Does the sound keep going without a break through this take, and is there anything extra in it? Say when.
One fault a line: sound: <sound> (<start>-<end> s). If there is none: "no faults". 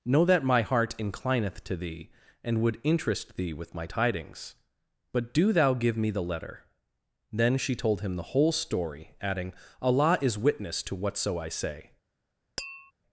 sound: tap (12.6-12.9 s)